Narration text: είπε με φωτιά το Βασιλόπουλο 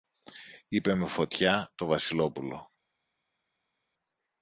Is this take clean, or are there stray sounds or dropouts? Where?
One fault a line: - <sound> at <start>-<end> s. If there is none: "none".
none